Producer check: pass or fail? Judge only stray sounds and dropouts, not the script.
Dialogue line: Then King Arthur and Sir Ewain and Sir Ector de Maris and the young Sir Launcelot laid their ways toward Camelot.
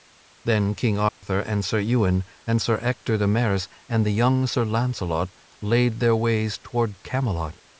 fail